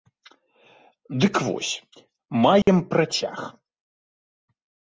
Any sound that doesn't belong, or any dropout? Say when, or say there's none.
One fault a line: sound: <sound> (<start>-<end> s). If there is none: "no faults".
sound: dropout (2.6-2.7 s)